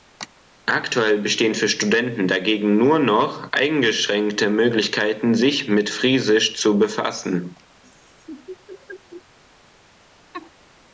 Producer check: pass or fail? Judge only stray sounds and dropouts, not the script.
fail